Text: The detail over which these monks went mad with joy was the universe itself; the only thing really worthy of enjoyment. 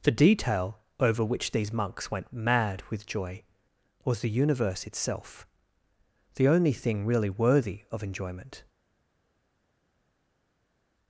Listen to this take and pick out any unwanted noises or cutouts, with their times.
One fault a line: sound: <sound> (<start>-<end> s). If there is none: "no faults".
no faults